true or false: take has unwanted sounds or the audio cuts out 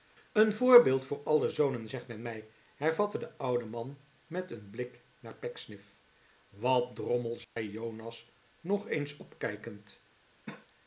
true